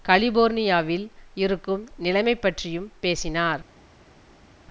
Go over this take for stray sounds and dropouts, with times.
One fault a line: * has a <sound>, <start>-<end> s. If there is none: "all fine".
all fine